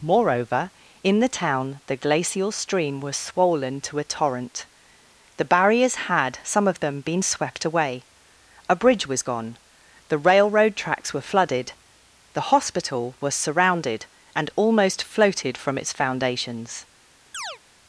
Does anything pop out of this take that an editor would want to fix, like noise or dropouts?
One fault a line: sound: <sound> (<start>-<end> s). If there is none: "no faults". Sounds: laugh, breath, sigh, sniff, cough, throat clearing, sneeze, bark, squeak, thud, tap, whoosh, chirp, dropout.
sound: chirp (17.3-17.6 s)